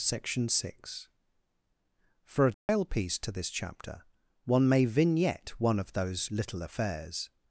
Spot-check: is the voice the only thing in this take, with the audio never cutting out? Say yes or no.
no